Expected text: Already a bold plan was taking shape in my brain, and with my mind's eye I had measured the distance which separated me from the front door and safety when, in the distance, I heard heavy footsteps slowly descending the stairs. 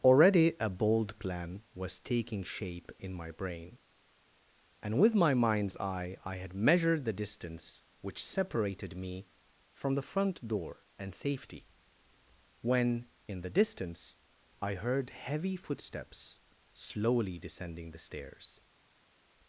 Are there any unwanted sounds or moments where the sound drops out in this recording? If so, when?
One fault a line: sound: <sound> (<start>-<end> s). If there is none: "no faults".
no faults